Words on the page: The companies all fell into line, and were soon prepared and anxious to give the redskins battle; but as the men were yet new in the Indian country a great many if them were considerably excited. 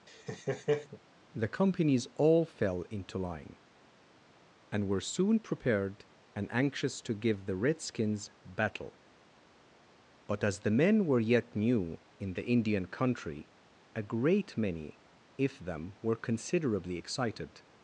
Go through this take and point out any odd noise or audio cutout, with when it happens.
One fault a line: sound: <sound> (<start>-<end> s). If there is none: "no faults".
sound: laugh (0.1-1.0 s)